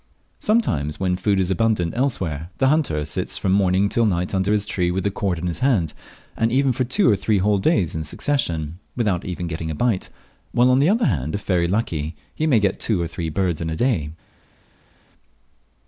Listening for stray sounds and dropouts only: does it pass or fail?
pass